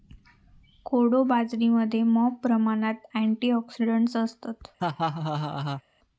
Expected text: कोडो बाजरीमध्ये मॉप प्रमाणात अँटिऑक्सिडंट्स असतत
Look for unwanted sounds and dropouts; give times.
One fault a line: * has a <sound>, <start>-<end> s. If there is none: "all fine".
* has a laugh, 4.8-5.8 s